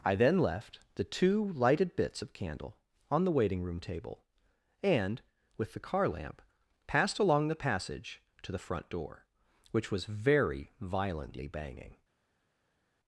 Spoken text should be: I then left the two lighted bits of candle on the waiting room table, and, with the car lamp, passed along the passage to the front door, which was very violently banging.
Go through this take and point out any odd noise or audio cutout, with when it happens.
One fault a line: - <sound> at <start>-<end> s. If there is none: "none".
none